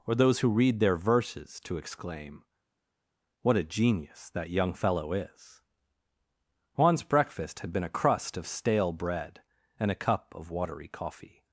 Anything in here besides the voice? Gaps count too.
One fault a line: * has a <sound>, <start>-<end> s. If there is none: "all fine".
all fine